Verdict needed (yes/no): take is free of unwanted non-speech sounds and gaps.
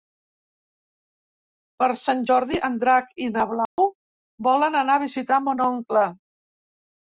no